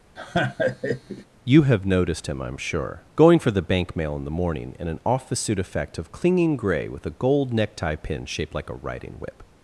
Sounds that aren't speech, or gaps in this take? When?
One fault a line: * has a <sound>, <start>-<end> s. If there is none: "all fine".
* has a laugh, 0.2-1.3 s